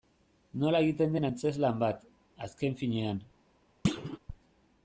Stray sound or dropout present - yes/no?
yes